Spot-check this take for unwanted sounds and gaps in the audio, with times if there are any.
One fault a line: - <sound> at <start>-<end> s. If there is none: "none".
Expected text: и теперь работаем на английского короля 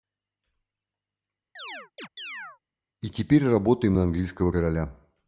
- chirp at 1.6-2.6 s